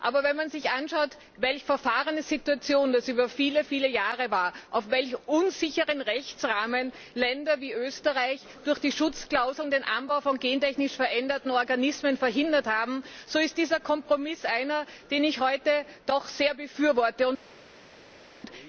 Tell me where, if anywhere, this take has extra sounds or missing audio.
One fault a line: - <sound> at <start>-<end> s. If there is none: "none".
none